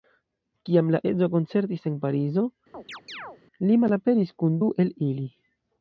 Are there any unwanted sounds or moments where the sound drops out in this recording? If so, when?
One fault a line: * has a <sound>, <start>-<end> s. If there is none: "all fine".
* has a chirp, 2.7-3.4 s